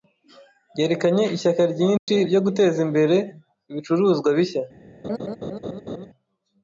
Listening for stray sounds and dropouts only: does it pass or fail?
fail